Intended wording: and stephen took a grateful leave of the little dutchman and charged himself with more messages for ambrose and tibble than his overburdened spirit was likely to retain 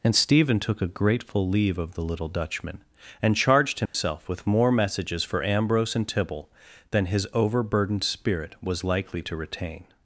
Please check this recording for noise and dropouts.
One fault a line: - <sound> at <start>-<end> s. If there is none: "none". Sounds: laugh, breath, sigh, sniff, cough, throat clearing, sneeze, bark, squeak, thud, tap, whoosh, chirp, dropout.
- dropout at 3.9-3.9 s